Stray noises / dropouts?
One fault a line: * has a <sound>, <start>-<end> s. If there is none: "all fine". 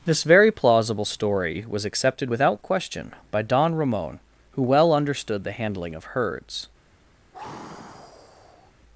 * has a sigh, 7.3-8.7 s